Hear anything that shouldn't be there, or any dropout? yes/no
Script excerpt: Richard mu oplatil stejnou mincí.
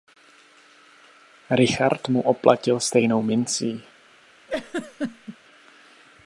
yes